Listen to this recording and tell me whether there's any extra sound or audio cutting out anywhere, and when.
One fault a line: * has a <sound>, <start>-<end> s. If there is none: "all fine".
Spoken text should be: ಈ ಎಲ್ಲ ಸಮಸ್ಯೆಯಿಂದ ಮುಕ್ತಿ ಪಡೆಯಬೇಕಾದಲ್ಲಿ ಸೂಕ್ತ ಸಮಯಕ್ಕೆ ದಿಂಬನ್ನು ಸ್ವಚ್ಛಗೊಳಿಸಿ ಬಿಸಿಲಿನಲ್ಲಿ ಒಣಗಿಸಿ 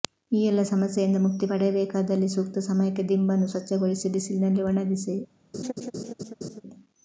* has a laugh, 5.5-6.6 s